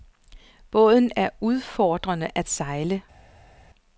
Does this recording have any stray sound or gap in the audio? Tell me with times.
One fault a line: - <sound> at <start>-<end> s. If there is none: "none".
none